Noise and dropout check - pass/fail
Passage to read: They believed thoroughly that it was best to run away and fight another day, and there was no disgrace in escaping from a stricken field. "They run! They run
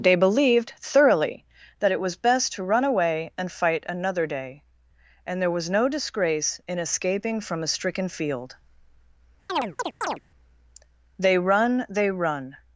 fail